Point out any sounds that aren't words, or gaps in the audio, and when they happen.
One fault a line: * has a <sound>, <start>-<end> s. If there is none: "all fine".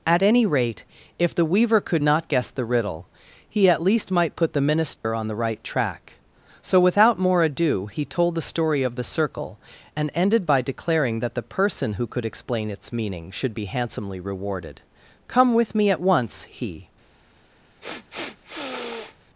* has a dropout, 5.0-5.0 s
* has a sniff, 17.8-19.2 s